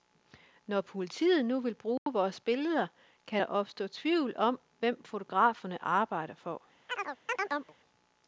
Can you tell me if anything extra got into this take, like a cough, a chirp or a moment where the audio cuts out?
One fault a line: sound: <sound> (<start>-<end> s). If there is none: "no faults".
sound: dropout (2.0-2.1 s)
sound: chirp (6.9-7.7 s)